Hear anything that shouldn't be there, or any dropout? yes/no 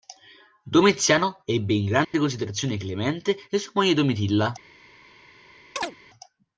yes